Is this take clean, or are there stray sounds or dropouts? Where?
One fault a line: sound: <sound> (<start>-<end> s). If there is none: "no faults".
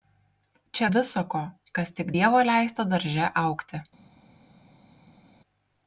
no faults